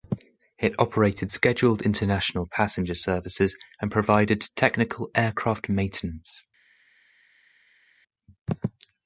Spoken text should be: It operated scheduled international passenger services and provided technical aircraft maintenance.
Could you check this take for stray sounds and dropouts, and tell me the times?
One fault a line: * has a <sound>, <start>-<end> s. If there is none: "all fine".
all fine